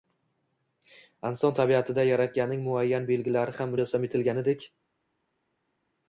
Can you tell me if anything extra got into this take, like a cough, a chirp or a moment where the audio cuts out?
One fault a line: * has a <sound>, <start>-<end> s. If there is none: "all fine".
all fine